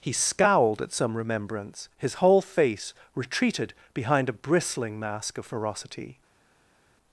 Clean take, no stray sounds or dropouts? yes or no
yes